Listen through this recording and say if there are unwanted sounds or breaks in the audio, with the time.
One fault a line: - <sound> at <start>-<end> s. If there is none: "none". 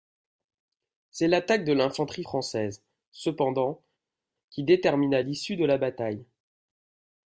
none